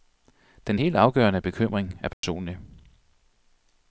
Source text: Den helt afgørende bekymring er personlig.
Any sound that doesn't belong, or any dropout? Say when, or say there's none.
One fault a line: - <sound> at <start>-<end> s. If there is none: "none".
- dropout at 2.1-2.2 s